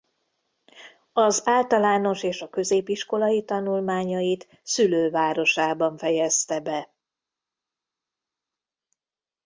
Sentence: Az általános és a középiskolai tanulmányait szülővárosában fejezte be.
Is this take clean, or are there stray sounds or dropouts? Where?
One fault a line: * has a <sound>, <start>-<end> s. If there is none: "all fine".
all fine